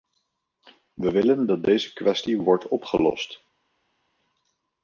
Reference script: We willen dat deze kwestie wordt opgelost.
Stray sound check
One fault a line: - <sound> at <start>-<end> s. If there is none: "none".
none